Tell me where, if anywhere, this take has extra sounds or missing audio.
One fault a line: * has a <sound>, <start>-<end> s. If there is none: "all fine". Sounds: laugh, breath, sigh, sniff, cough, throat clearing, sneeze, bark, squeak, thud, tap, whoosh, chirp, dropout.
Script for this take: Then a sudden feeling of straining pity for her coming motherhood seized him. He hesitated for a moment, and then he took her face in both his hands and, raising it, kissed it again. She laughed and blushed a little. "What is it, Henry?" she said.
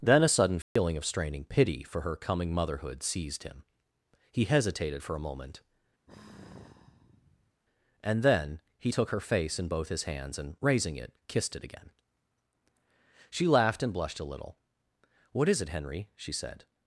* has a dropout, 0.6-0.8 s
* has a sigh, 6.1-7.6 s